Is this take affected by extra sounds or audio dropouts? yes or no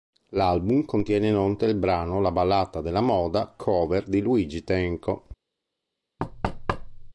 yes